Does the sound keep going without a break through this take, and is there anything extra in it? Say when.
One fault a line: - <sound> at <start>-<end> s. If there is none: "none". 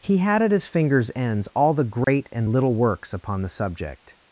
- dropout at 2.0-2.1 s